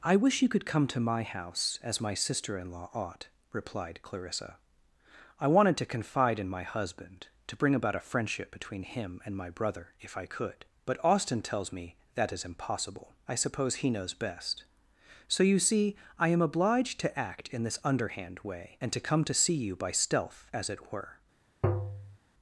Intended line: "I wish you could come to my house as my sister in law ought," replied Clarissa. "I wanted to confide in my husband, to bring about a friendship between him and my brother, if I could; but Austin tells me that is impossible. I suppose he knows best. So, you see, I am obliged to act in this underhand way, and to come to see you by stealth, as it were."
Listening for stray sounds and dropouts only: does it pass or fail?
fail